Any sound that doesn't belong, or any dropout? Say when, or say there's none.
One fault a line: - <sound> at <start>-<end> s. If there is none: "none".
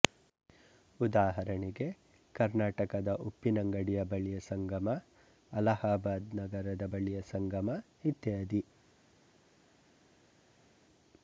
none